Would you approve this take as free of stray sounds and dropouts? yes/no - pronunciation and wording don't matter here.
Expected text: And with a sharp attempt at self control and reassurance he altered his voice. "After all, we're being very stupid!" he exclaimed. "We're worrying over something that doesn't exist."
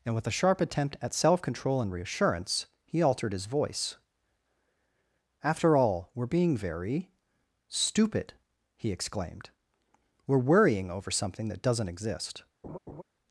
no